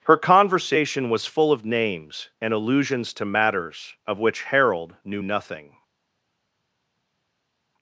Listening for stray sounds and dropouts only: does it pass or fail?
pass